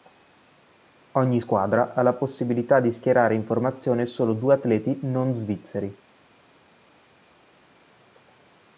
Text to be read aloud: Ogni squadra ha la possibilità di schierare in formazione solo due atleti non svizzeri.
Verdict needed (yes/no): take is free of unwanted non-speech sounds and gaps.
yes